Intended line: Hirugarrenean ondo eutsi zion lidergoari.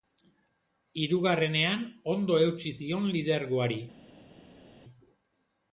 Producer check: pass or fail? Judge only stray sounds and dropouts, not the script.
pass